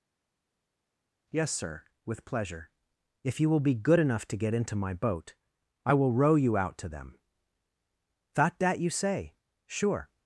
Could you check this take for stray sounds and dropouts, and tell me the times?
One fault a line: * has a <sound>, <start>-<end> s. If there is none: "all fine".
all fine